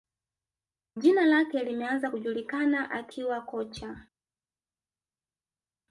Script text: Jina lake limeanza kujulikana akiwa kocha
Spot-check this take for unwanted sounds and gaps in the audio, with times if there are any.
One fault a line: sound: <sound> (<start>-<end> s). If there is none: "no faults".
no faults